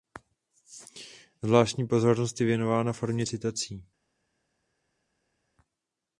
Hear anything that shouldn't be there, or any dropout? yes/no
no